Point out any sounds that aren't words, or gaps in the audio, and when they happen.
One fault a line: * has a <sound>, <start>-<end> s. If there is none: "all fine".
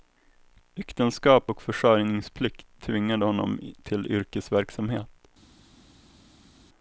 all fine